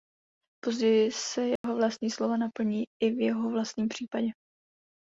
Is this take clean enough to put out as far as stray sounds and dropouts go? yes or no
no